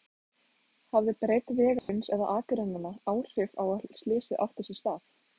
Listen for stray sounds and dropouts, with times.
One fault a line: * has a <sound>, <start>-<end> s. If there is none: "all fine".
* has a dropout, 1.8-1.9 s